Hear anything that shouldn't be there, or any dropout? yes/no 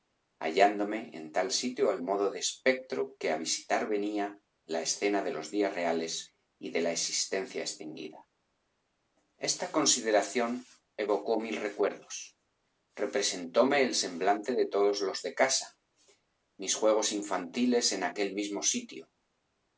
no